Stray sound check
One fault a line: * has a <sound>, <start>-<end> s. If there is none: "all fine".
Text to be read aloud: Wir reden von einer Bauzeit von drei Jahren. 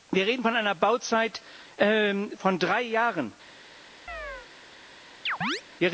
* has a chirp, 4.1-4.5 s
* has a chirp, 5.3-5.6 s